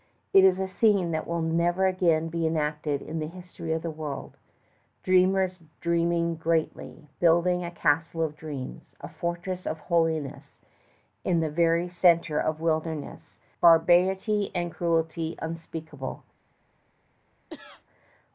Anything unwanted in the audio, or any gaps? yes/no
yes